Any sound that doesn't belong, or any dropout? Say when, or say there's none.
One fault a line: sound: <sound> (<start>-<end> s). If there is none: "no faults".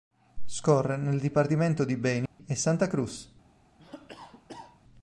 sound: dropout (2.3-2.4 s)
sound: cough (3.8-4.8 s)